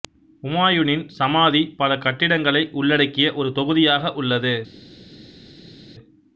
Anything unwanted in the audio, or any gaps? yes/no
no